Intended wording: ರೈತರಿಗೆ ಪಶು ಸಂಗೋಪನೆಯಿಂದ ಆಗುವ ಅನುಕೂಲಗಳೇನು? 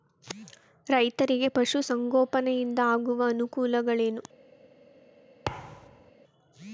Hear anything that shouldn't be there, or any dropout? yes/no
yes